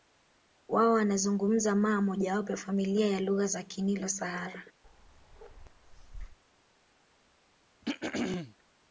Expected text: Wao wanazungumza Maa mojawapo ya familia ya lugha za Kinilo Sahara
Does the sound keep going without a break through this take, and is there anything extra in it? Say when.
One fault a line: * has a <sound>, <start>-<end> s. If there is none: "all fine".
* has a bark, 4.8-6.4 s
* has a throat clearing, 7.8-8.6 s